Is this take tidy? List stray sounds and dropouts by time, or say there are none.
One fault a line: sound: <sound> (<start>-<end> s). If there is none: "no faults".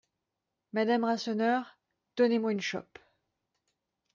no faults